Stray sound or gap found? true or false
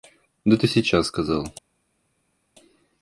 false